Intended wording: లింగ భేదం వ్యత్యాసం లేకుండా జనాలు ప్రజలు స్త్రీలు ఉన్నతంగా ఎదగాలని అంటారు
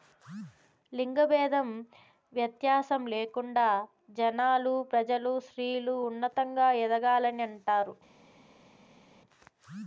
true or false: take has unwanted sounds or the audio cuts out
false